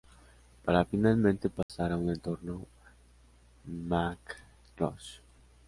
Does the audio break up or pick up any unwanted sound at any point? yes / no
yes